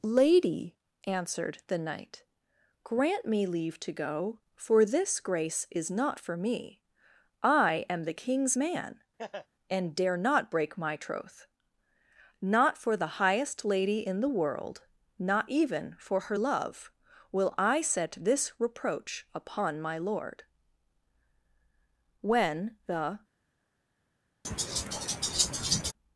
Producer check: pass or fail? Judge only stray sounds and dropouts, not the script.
fail